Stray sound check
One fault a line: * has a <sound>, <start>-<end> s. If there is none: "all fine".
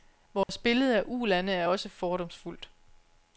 * has a dropout, 0.4-0.5 s